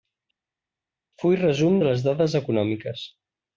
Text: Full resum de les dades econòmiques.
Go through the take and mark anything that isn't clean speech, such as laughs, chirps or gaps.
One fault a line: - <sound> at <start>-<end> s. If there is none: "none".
none